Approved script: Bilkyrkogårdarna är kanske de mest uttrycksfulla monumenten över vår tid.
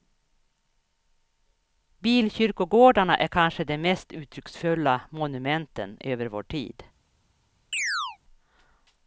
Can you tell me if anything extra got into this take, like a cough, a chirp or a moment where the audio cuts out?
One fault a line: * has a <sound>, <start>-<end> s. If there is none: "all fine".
* has a chirp, 7.7-8.2 s